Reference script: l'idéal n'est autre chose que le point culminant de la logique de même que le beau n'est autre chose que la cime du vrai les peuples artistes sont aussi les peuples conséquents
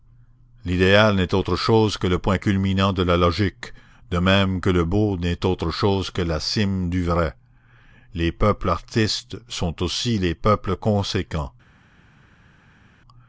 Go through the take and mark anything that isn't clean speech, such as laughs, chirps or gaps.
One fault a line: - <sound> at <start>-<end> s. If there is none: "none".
none